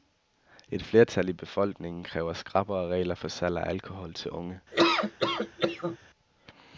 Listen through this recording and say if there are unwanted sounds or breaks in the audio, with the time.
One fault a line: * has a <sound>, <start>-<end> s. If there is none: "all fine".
* has a laugh, 4.7-6.0 s